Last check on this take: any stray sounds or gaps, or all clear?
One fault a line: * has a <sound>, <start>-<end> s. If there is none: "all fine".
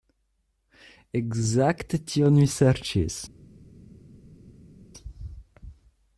all fine